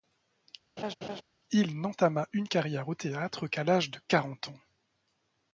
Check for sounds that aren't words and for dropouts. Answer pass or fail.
fail